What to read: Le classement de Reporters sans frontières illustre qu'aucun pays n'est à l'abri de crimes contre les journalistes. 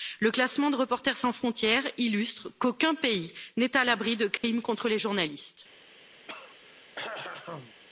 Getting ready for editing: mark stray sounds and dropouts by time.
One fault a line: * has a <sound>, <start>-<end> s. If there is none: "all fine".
* has a dropout, 4.4-4.4 s
* has a throat clearing, 6.3-7.7 s